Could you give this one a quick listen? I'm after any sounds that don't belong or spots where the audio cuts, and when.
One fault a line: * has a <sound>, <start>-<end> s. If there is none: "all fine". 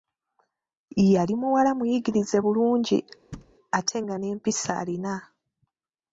* has a thud, 3.3-3.5 s